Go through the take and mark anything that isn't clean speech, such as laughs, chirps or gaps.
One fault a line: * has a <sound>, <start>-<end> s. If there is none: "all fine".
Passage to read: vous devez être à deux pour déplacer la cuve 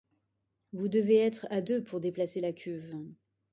all fine